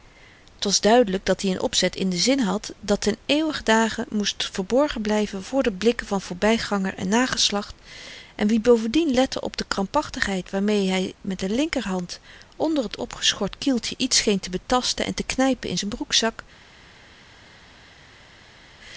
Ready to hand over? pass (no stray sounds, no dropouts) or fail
pass